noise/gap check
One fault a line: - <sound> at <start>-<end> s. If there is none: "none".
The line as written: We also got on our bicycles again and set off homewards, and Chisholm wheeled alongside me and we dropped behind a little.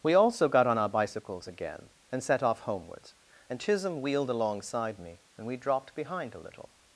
none